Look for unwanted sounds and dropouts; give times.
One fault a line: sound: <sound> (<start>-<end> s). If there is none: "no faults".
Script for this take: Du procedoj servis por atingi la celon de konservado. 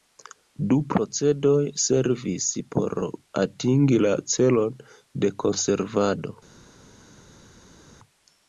no faults